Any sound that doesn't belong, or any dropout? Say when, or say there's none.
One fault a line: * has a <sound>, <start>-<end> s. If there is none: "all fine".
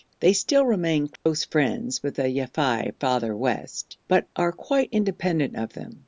* has a dropout, 1.2-1.3 s